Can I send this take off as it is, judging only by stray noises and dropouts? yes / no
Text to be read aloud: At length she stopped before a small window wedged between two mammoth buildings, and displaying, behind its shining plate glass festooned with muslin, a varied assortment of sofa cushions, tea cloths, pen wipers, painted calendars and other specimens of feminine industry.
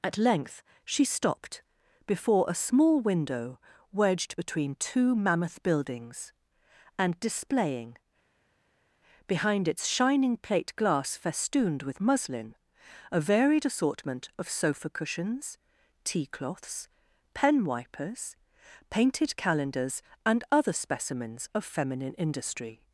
yes